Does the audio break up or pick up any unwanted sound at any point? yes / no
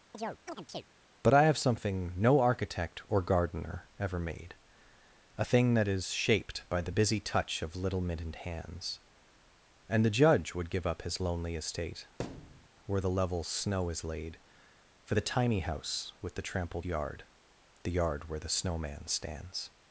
yes